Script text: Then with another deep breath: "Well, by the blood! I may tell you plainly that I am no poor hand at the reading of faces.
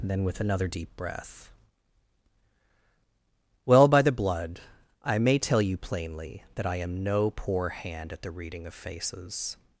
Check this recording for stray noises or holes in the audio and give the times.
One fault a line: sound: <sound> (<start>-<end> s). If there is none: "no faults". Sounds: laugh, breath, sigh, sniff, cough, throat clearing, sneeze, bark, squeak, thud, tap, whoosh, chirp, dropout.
no faults